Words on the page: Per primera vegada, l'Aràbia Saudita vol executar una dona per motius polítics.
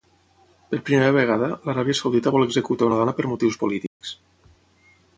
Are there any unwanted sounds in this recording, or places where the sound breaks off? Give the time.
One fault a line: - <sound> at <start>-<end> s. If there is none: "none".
- dropout at 3.9-4.0 s